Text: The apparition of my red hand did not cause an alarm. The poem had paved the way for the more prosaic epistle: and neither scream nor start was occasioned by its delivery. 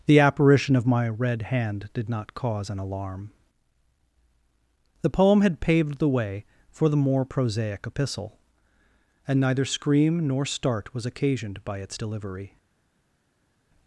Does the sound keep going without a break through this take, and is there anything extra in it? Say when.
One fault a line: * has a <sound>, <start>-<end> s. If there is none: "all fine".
all fine